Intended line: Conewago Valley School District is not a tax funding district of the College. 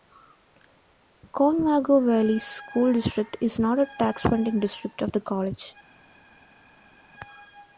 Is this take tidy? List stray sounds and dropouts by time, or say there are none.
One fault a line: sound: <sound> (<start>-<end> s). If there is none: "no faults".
no faults